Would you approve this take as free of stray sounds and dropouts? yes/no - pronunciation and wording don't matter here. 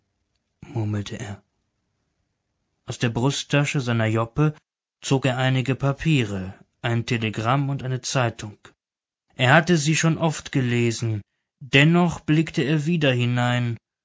yes